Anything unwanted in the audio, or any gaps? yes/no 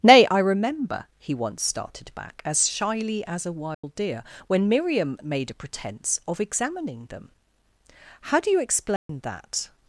yes